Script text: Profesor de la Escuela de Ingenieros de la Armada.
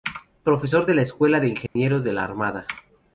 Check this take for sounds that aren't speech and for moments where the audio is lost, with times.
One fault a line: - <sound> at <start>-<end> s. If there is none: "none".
- dropout at 1.7-1.8 s